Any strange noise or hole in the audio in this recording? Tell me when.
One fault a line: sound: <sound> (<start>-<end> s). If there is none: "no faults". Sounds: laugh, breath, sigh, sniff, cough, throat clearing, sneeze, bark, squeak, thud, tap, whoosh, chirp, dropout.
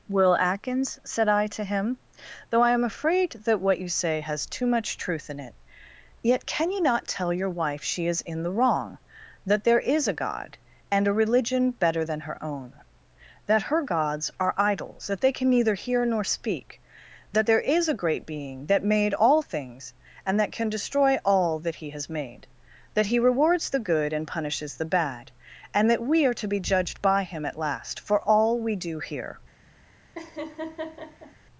sound: laugh (30.2-31.4 s)